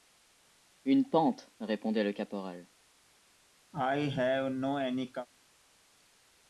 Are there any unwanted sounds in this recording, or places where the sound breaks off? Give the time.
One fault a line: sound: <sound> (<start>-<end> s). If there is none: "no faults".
sound: cough (3.7-5.3 s)